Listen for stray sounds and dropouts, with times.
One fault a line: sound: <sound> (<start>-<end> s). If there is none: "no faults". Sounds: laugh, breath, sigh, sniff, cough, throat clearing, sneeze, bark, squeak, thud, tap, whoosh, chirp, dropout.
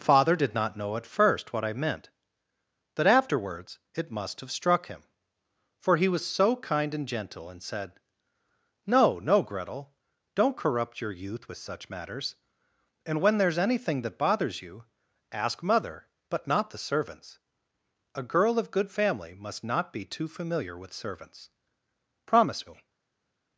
no faults